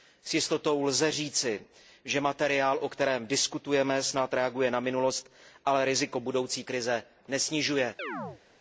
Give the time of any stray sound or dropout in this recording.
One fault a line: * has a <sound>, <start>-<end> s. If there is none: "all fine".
* has a chirp, 8.0-8.4 s